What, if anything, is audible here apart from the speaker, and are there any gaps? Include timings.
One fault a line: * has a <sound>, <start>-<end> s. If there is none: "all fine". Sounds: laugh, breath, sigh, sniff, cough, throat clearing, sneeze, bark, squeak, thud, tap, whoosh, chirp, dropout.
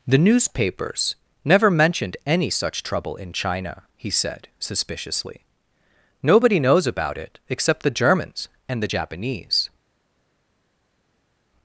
all fine